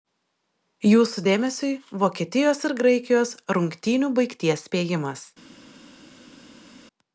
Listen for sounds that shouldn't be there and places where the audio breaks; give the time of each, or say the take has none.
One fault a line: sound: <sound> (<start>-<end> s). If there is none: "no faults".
no faults